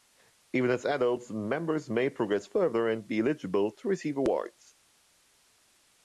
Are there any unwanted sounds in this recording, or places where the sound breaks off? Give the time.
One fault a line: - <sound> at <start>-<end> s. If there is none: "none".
none